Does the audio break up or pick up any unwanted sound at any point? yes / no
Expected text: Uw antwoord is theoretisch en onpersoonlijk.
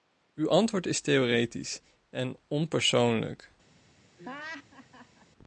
yes